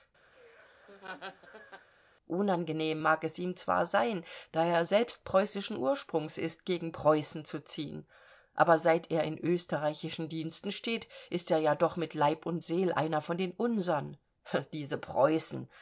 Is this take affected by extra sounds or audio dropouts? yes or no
yes